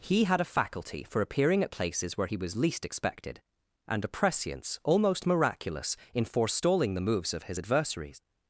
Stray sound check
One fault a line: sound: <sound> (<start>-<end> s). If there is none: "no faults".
no faults